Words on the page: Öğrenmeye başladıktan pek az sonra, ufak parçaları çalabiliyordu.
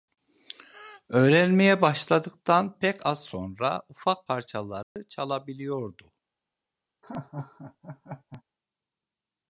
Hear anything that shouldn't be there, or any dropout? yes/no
yes